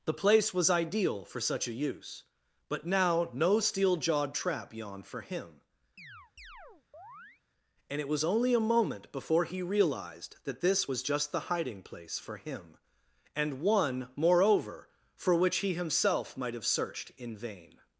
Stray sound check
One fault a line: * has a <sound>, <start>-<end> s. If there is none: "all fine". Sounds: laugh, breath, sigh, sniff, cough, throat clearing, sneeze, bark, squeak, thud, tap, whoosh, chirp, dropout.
* has a chirp, 6.0-7.4 s